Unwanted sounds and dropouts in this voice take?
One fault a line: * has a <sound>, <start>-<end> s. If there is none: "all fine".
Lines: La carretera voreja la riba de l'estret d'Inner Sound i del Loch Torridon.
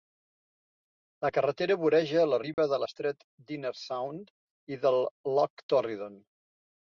* has a dropout, 2.5-2.6 s